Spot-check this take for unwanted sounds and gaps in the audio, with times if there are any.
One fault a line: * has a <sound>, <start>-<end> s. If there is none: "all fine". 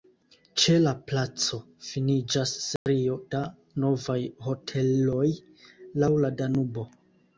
* has a dropout, 2.8-2.9 s